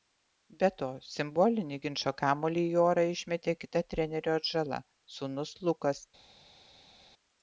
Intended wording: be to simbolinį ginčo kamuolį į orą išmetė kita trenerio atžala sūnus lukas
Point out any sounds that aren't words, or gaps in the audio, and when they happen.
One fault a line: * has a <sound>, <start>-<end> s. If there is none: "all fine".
all fine